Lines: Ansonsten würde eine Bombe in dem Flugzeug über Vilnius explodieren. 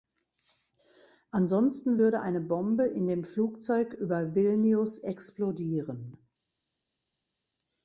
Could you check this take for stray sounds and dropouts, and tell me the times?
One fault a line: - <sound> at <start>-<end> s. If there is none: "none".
none